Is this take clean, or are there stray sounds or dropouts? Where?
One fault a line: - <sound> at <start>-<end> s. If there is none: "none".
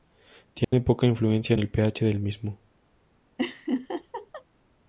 - dropout at 0.6-0.7 s
- laugh at 3.4-4.4 s